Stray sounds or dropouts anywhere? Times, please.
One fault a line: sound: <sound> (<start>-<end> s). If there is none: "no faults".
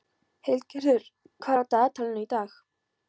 no faults